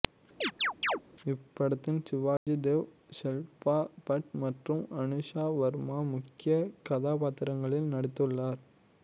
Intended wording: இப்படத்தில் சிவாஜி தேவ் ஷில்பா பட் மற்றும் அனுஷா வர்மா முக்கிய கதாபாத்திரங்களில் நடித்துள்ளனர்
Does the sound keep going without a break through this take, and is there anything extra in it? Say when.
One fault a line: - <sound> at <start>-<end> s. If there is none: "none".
- chirp at 0.4-1.0 s
- dropout at 2.4-2.5 s